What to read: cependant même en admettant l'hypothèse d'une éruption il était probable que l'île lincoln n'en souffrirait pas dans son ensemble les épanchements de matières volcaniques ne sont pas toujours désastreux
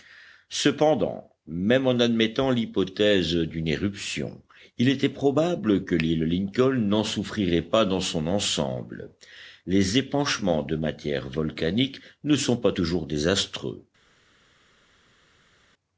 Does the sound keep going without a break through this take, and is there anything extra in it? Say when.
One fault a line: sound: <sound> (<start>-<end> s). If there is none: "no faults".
no faults